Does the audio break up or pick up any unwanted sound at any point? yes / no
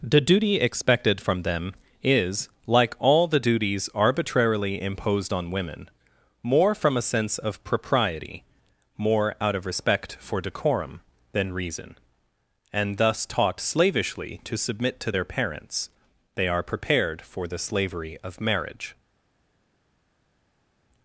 no